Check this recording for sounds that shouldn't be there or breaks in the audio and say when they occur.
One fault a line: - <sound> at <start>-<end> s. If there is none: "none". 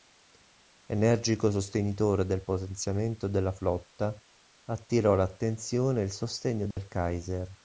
- dropout at 6.7-6.8 s